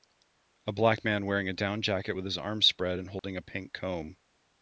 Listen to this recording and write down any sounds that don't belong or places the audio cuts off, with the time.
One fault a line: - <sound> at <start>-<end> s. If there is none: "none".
- dropout at 3.2-3.2 s